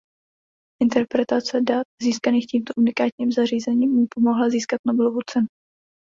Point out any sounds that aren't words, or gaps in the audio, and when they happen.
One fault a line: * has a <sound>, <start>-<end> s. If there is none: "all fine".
all fine